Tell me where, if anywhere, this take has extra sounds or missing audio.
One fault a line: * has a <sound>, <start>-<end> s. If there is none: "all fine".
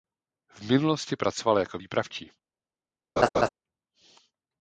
* has a laugh, 3.2-3.5 s